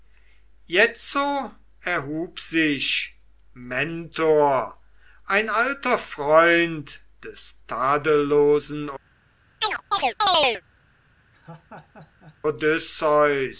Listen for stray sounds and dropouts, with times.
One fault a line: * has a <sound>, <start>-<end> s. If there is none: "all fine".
* has a chirp, 9.6-10.6 s
* has a laugh, 11.3-12.4 s